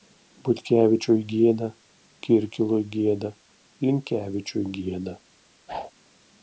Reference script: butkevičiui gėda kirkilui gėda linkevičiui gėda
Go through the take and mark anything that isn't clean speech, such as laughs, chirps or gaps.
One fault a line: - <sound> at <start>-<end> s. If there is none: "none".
- whoosh at 5.7-5.9 s